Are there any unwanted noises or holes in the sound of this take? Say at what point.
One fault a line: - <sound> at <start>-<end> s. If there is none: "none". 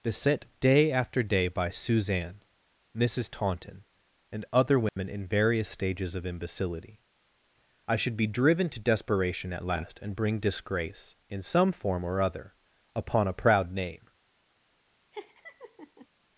- dropout at 4.9-5.0 s
- laugh at 15.1-16.1 s